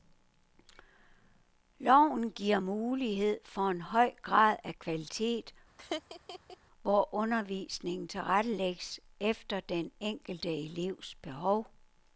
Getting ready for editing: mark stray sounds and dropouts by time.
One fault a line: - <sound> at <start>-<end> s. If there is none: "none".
- laugh at 5.8-6.6 s